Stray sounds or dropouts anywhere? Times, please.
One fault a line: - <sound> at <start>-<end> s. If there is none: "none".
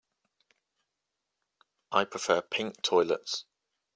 none